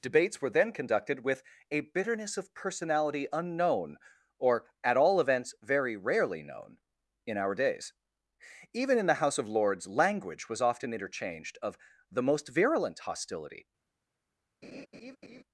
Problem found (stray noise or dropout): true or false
true